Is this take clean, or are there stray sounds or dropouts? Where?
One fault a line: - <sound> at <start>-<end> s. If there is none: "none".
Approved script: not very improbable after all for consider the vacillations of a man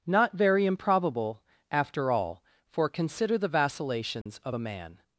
- dropout at 4.2-4.3 s